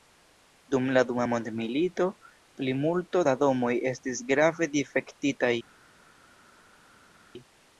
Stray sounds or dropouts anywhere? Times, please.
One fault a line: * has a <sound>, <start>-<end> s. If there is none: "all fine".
all fine